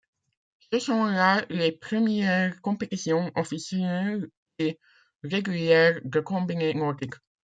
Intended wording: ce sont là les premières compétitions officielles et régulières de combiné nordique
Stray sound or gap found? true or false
false